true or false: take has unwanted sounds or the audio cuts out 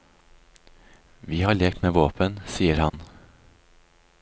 true